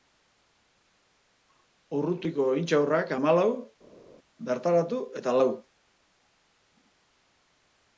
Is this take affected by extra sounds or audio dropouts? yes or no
no